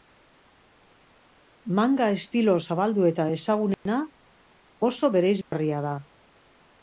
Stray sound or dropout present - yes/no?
yes